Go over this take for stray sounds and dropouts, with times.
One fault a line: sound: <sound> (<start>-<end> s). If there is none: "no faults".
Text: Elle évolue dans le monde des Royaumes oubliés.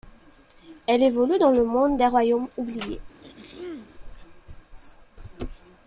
sound: throat clearing (3.2-3.9 s)